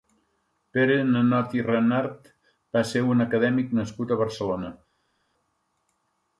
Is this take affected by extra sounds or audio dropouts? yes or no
no